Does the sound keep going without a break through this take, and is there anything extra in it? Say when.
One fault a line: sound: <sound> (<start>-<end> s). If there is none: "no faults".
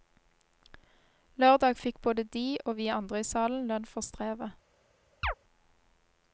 sound: chirp (5.2-5.3 s)